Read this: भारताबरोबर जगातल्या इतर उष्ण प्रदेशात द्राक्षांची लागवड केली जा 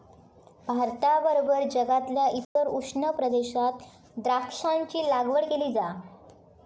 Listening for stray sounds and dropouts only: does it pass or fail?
fail